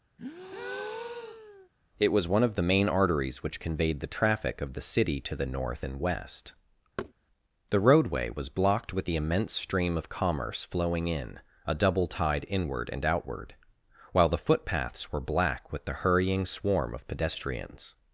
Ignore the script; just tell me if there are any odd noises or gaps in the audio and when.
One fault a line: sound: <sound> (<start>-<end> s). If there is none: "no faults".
sound: breath (0.2-1.7 s)
sound: thud (7.0-7.1 s)